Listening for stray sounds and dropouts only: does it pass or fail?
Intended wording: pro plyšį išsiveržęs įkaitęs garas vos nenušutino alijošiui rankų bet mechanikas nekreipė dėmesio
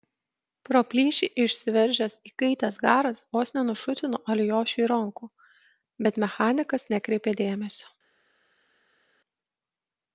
pass